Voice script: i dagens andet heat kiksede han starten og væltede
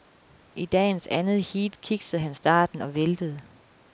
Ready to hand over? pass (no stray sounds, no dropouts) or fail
pass